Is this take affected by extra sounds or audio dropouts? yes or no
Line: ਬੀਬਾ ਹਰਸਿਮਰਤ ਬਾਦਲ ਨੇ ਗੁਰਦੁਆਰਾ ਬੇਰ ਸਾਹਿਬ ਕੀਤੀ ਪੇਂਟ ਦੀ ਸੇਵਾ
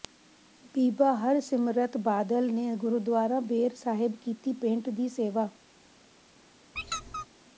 yes